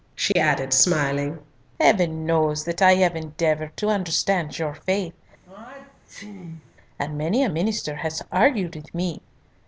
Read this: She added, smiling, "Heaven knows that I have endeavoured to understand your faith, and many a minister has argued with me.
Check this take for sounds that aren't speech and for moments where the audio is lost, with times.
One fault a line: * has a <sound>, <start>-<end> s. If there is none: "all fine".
* has a dropout, 0.3-0.4 s
* has a sneeze, 5.4-6.8 s